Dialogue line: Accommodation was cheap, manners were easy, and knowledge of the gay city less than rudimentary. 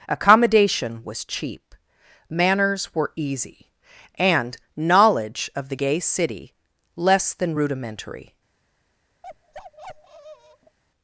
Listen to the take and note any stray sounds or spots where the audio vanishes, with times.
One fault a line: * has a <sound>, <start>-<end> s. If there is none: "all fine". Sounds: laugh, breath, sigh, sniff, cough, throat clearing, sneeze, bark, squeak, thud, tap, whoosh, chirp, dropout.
* has a bark, 9.2-10.8 s